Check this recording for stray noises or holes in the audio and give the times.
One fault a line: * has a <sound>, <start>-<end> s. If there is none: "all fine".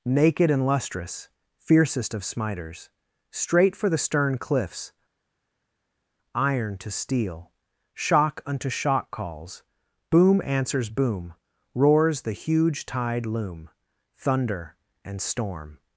all fine